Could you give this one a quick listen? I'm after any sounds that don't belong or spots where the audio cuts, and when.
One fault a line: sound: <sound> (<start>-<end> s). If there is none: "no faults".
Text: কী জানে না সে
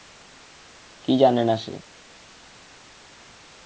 no faults